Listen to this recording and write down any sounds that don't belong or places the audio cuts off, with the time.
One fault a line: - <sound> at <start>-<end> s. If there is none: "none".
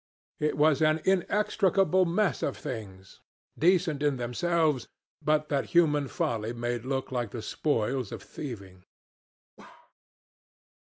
- bark at 9.6-9.9 s